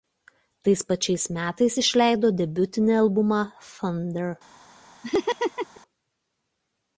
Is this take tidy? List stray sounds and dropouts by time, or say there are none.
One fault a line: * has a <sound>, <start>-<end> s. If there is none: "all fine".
* has a laugh, 5.0-5.8 s